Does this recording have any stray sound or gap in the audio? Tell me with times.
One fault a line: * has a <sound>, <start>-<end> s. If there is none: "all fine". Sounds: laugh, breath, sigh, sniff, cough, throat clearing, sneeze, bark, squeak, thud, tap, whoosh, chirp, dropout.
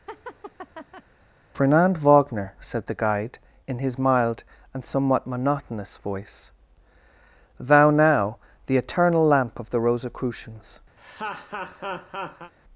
* has a laugh, 0.1-1.0 s
* has a laugh, 11.0-12.5 s